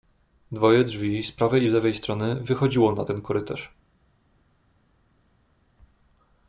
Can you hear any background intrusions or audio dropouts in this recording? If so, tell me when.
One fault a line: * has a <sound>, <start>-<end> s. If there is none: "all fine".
all fine